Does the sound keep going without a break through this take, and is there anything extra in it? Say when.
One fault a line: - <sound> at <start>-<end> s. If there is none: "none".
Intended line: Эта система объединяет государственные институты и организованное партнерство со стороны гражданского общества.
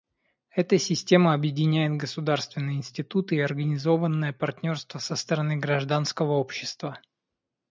none